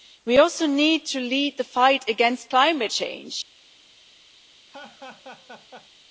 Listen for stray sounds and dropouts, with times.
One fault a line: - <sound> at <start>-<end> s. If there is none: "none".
- laugh at 4.7-5.9 s